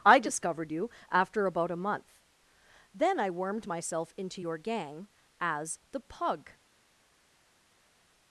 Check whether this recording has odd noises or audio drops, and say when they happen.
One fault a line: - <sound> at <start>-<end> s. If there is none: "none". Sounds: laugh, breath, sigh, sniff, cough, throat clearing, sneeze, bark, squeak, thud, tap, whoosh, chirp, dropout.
none